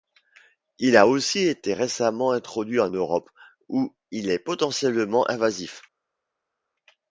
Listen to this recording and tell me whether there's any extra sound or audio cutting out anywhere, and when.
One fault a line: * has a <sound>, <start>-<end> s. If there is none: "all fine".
all fine